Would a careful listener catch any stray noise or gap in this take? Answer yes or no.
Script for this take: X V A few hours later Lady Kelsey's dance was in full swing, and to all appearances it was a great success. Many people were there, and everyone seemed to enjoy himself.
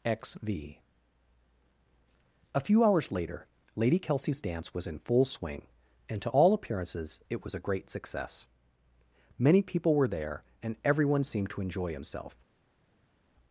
no